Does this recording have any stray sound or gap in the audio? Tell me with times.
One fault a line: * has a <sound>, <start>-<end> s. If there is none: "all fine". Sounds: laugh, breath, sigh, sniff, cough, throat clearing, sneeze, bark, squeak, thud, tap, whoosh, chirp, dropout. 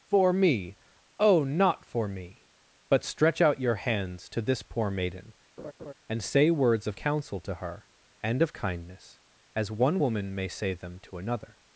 * has a laugh, 5.6-5.9 s